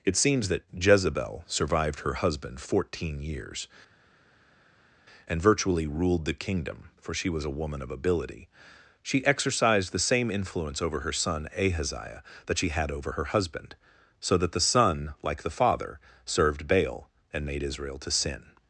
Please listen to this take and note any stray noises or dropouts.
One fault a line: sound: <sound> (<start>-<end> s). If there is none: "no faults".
no faults